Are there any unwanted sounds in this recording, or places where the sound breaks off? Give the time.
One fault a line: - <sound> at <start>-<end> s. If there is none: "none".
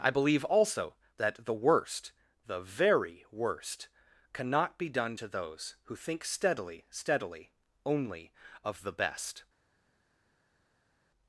none